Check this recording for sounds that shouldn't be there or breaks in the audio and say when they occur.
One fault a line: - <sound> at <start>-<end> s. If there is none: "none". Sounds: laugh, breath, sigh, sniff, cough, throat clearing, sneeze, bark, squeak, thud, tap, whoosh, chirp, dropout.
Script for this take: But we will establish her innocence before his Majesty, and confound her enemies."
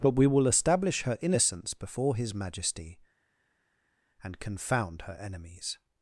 none